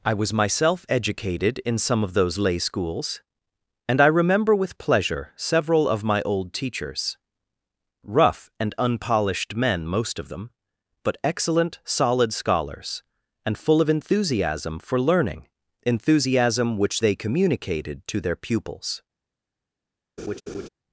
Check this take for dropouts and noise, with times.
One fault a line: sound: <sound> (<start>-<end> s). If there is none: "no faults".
sound: laugh (20.2-20.7 s)